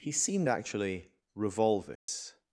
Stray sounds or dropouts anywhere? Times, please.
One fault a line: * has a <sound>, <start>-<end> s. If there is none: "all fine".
* has a dropout, 2.0-2.1 s